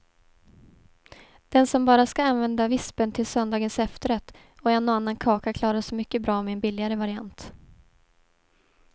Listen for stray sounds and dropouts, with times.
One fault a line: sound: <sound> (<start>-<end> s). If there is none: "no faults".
no faults